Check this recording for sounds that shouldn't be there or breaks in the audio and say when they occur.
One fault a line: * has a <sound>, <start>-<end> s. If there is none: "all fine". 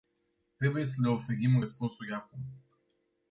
all fine